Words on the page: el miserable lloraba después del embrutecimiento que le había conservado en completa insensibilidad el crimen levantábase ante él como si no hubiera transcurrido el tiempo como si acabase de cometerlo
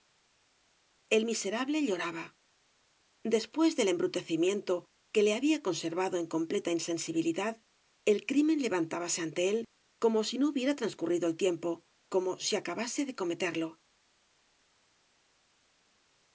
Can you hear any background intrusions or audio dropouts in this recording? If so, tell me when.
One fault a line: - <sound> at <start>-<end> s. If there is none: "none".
none